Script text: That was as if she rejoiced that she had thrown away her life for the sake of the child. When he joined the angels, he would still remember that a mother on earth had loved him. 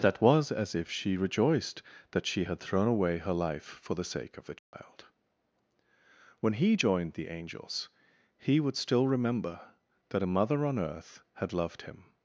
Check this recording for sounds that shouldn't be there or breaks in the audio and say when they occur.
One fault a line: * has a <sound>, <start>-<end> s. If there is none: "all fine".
* has a dropout, 4.6-4.7 s